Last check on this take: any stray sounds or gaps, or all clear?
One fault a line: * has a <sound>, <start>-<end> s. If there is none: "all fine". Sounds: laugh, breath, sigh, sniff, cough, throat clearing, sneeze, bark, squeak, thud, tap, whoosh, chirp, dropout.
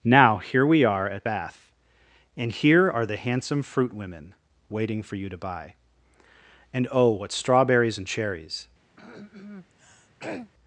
* has a throat clearing, 9.0-10.5 s